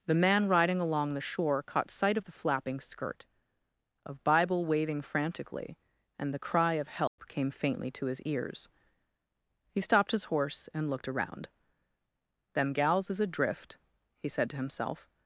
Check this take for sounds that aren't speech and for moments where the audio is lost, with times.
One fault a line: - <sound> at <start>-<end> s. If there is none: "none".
- dropout at 7.1-7.2 s